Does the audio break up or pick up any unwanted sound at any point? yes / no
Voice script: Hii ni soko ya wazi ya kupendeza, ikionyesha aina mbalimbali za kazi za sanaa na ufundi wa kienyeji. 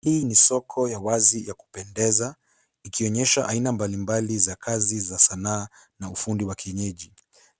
no